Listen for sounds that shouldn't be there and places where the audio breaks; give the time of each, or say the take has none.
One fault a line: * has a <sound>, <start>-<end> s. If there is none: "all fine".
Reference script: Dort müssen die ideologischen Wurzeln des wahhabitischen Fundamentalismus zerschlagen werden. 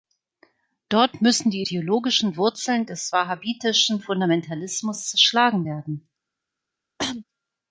* has a cough, 7.0-7.2 s